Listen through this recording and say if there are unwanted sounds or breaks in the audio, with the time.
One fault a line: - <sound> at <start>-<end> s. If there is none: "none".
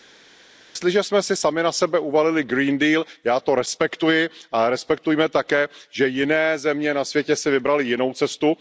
none